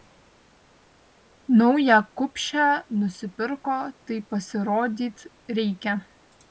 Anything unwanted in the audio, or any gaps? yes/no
no